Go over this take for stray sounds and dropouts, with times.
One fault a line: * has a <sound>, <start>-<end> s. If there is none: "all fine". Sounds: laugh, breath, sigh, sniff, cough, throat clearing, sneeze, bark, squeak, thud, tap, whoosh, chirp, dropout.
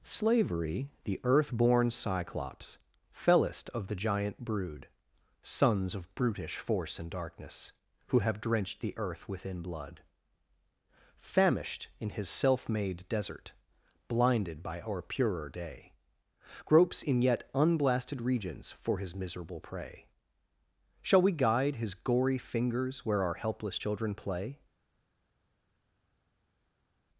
all fine